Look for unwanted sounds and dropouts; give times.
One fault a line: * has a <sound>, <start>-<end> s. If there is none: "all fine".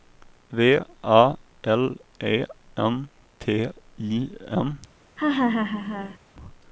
* has a laugh, 5.2-6.2 s